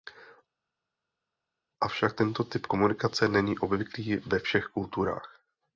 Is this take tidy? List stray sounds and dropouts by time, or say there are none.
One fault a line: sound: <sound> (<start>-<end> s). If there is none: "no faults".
no faults